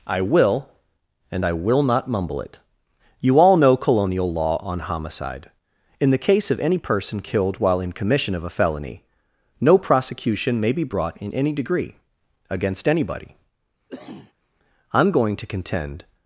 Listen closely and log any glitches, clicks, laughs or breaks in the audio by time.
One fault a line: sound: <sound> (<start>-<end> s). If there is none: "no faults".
sound: cough (13.9-14.3 s)